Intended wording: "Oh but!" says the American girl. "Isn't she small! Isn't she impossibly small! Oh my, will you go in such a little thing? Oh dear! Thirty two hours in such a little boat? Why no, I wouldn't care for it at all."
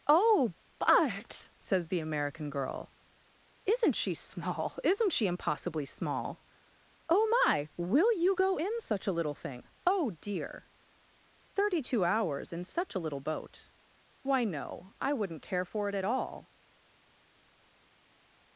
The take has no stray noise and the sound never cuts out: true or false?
true